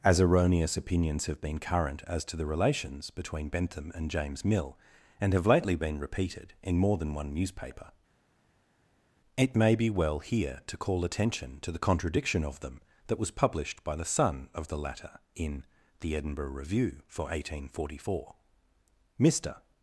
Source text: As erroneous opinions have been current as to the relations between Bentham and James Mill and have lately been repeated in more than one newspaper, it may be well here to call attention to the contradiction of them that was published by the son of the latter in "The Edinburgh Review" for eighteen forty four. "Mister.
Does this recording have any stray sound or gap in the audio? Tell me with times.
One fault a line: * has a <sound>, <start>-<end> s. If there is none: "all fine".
all fine